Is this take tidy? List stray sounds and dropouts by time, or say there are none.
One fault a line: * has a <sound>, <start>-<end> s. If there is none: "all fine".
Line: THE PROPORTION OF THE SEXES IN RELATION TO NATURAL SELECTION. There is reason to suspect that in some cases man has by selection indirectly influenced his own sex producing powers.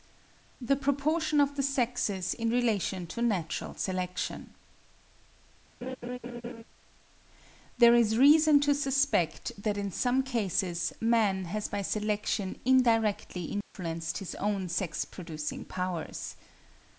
* has a laugh, 5.8-6.6 s
* has a dropout, 13.6-13.7 s